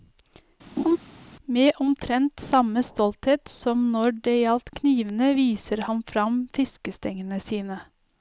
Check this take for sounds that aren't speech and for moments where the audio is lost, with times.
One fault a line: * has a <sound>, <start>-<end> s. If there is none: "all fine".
* has a laugh, 0.8-1.0 s